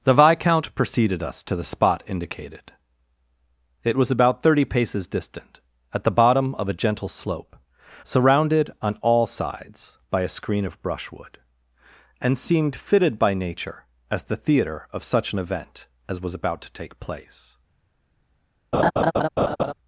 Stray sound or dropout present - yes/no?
yes